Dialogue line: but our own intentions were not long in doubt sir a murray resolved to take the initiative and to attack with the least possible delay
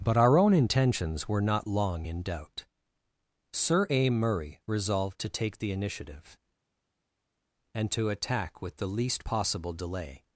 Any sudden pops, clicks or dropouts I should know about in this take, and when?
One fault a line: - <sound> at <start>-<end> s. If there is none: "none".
none